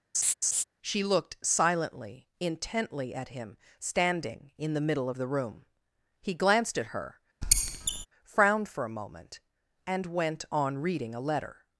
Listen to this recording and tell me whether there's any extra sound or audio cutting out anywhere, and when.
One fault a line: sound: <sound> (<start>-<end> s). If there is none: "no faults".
sound: laugh (0.1-0.6 s)
sound: squeak (7.4-8.1 s)